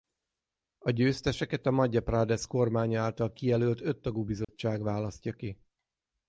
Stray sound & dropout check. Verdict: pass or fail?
fail